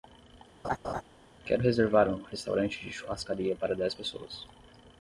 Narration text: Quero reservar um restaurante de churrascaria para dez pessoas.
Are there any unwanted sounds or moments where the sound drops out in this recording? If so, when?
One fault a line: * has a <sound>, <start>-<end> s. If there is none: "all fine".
* has a laugh, 0.6-1.0 s